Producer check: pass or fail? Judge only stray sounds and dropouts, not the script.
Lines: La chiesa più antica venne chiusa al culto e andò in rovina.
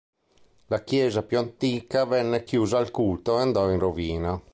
pass